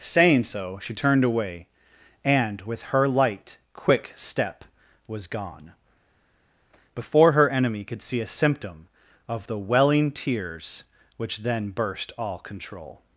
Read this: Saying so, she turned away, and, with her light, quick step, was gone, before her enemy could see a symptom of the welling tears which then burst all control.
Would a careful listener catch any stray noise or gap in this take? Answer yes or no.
no